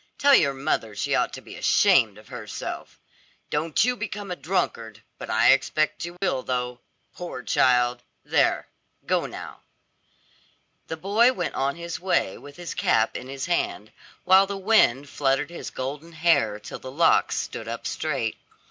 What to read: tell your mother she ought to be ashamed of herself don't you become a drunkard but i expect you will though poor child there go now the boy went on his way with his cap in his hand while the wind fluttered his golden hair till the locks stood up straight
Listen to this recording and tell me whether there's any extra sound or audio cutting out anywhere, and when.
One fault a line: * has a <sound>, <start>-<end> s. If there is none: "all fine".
* has a dropout, 6.2-6.2 s